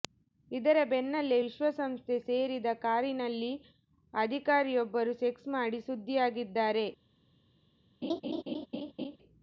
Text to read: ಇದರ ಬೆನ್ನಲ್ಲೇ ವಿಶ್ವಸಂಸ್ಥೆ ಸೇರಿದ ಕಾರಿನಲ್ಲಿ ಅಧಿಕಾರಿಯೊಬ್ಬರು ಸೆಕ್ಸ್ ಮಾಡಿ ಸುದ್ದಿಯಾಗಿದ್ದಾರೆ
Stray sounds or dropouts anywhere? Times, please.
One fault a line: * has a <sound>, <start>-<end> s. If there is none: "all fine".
* has a laugh, 8.0-9.2 s